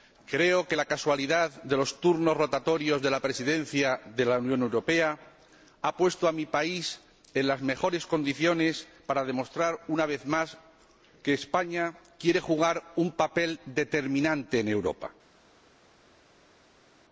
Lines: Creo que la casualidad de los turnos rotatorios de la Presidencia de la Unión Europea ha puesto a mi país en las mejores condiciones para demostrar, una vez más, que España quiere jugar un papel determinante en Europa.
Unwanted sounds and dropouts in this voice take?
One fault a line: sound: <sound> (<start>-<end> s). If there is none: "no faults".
no faults